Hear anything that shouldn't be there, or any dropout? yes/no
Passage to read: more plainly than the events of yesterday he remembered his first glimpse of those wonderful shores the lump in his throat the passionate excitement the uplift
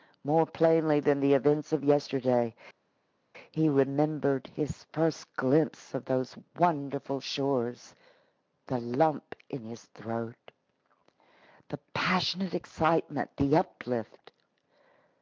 no